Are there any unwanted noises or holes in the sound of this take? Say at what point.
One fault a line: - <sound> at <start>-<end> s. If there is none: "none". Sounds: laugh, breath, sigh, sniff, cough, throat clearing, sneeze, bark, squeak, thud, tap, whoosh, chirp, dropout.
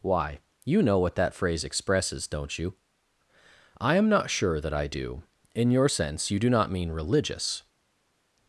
none